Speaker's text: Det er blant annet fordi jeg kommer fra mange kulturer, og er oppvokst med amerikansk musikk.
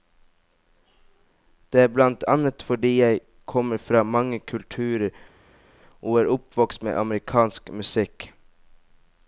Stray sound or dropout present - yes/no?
no